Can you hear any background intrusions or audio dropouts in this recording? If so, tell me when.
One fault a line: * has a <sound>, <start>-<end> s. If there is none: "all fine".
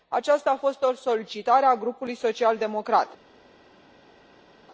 all fine